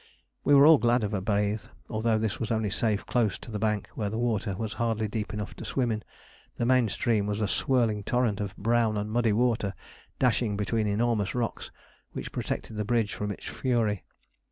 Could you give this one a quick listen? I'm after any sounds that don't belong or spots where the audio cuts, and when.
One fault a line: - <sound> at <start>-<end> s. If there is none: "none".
none